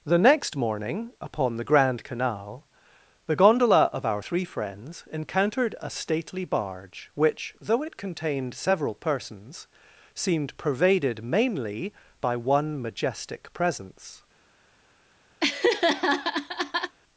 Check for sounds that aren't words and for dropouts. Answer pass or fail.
fail